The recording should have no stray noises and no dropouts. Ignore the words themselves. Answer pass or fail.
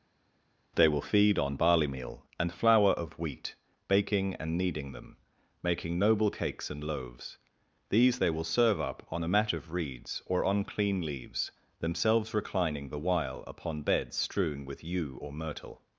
pass